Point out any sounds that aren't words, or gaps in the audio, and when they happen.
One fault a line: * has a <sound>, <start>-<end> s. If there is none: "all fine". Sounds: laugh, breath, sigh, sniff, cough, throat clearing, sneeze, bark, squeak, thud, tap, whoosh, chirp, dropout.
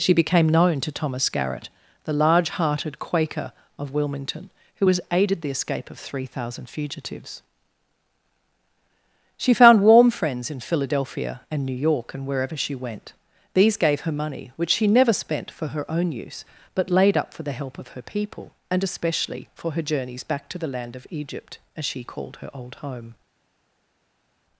all fine